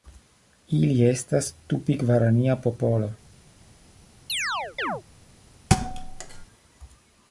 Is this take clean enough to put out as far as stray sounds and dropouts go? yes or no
no